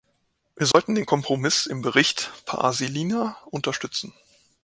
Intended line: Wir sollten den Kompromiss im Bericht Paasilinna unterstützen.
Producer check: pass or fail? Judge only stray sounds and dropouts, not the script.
fail